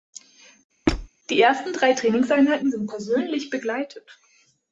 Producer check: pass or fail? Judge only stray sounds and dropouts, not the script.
fail